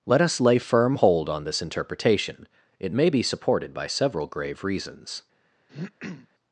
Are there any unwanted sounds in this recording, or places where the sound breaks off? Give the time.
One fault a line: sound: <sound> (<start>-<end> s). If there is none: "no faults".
sound: throat clearing (5.7-6.3 s)